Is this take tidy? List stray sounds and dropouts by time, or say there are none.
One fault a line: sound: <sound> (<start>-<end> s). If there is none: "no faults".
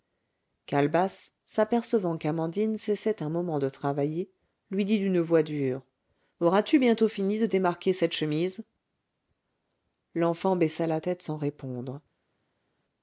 no faults